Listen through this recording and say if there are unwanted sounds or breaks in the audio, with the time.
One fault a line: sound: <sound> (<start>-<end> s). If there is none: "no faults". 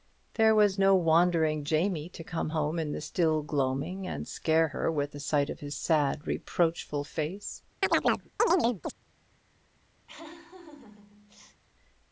sound: chirp (7.8-8.9 s)
sound: laugh (10.1-11.6 s)